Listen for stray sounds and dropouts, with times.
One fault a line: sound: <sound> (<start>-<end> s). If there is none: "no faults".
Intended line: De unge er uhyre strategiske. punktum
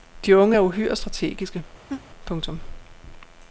sound: laugh (1.9-2.1 s)